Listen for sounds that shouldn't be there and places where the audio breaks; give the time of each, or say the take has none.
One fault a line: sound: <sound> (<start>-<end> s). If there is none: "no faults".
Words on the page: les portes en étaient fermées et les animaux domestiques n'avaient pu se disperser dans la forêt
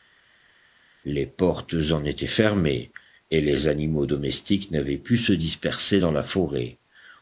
no faults